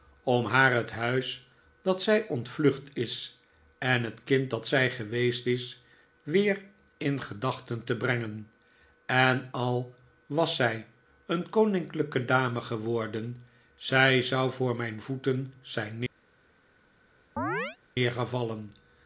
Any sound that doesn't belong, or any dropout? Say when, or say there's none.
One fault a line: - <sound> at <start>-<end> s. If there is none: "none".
- chirp at 17.4-17.8 s